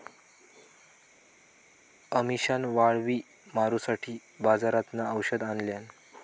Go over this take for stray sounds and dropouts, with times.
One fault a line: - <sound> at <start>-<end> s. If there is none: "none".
none